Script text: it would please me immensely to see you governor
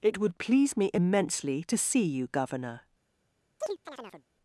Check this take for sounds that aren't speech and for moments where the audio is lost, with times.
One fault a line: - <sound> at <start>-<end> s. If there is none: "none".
- chirp at 3.6-4.2 s